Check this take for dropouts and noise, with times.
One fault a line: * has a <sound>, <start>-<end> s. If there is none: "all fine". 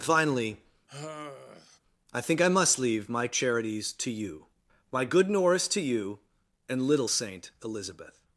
* has a sigh, 0.9-1.8 s